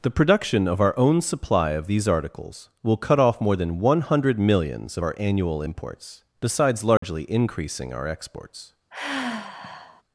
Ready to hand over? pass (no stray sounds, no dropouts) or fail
fail